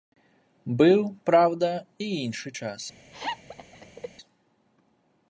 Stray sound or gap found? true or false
true